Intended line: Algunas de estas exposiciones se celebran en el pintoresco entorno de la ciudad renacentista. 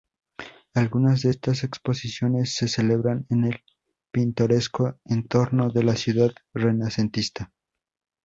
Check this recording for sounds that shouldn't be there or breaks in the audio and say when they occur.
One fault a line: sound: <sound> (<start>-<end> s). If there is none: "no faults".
no faults